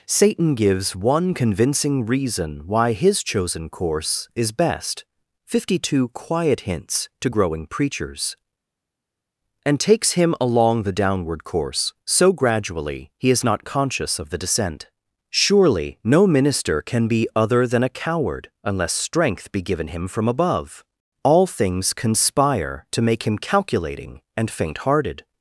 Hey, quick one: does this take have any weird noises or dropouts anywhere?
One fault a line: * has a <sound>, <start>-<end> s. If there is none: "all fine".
all fine